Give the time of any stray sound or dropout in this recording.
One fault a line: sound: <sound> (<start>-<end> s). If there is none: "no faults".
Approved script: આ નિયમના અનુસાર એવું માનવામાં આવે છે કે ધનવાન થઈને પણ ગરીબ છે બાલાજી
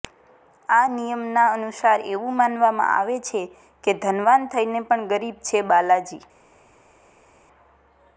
no faults